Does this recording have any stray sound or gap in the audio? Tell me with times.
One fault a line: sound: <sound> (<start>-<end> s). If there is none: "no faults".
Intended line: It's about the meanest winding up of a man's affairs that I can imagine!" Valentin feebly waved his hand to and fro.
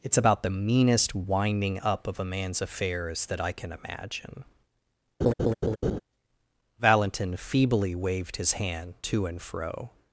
sound: laugh (5.2-6.0 s)